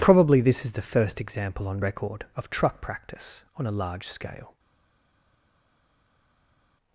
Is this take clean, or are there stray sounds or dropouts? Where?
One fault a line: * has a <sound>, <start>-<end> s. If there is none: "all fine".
all fine